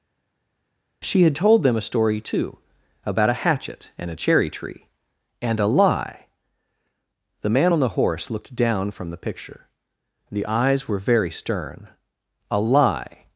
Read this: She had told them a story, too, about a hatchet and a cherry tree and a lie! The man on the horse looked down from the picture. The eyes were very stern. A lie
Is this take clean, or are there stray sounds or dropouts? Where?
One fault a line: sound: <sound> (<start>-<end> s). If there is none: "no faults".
no faults